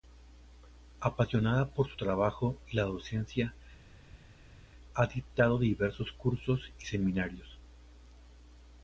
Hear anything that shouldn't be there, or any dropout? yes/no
no